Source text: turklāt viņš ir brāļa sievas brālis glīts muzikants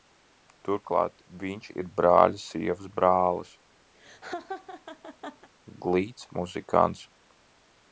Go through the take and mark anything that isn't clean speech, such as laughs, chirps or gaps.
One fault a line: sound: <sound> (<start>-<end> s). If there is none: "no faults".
sound: laugh (3.9-5.5 s)